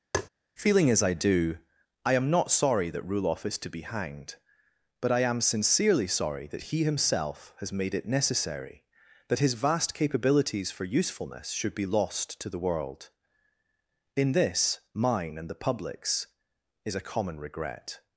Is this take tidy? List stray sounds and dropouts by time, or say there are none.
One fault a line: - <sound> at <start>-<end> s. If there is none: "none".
- tap at 0.1-0.3 s